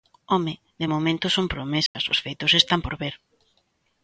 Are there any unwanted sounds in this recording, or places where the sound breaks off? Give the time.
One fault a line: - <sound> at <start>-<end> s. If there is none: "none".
- dropout at 1.9-1.9 s